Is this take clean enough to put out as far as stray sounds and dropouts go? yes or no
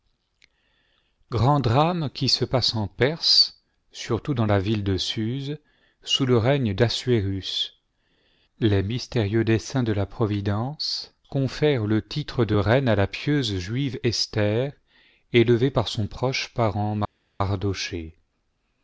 yes